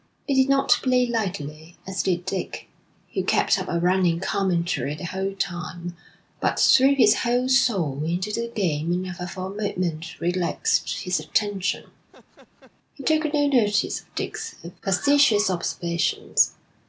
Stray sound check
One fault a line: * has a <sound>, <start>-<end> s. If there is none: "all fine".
* has a laugh, 12.1-12.7 s